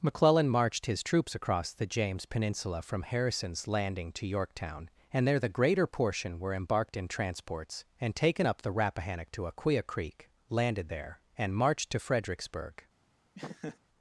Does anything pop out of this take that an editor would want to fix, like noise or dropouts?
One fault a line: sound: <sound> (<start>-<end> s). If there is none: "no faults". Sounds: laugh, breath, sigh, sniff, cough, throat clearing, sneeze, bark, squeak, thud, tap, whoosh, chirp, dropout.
sound: laugh (13.3-13.8 s)